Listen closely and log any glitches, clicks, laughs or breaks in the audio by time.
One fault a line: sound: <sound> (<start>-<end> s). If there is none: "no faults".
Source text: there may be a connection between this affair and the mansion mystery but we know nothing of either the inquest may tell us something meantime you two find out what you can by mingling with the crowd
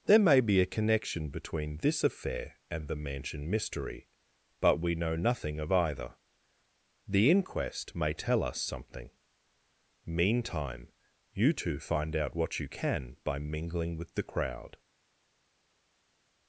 no faults